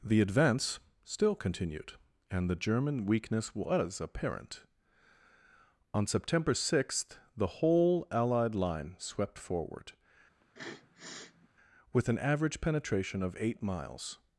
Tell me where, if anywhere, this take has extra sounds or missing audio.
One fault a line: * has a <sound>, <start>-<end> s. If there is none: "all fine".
* has a sniff, 10.4-11.5 s